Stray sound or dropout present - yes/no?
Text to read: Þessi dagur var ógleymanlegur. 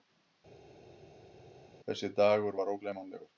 no